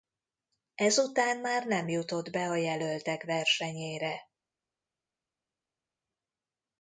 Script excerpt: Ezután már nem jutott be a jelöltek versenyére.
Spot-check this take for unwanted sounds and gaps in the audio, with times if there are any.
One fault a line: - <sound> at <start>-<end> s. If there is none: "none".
none